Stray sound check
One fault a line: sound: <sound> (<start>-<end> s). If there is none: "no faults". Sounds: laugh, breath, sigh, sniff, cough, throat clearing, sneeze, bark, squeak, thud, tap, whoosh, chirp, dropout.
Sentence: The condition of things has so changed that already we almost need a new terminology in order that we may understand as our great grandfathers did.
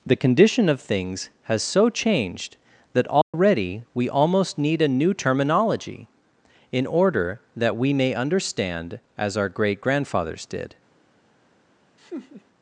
sound: dropout (3.2-3.3 s)
sound: laugh (12.0-12.4 s)